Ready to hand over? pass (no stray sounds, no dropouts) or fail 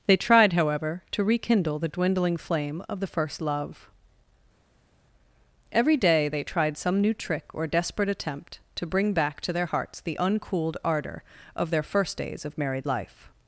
pass